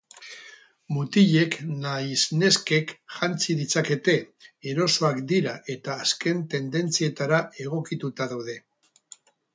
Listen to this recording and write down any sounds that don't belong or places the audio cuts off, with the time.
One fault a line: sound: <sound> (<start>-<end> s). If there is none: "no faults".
no faults